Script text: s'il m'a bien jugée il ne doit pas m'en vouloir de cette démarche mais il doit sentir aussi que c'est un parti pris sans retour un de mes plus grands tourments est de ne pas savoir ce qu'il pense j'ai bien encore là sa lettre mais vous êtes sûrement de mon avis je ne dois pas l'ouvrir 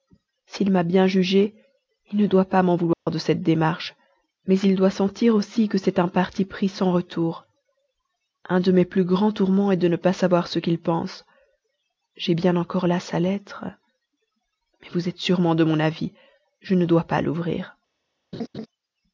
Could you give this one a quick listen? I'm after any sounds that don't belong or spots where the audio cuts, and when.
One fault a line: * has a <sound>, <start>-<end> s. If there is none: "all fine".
* has a dropout, 2.9-3.1 s
* has a laugh, 18.3-18.7 s